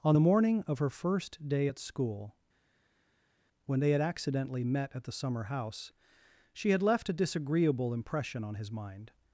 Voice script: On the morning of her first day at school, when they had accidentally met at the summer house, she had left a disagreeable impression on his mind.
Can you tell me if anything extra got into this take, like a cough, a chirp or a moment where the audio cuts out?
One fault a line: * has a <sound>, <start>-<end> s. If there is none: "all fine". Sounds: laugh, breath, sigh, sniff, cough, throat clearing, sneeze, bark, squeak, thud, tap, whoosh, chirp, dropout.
all fine